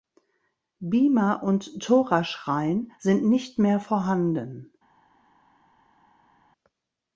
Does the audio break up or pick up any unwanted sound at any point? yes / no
no